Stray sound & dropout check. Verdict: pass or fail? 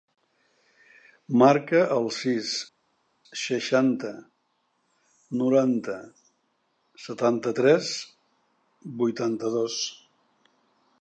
pass